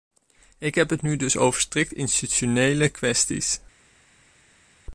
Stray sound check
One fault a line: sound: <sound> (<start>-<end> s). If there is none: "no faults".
no faults